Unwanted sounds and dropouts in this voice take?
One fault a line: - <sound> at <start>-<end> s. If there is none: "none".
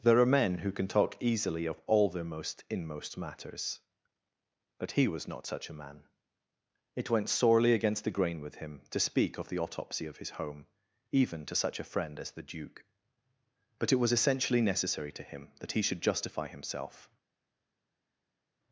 none